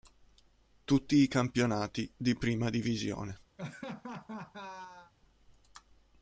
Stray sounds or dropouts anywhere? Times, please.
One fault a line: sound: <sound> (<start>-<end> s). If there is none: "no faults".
sound: laugh (3.6-5.1 s)